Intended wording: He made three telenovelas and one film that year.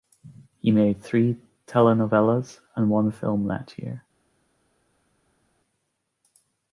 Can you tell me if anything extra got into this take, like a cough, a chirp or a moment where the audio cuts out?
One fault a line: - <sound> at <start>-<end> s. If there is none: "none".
none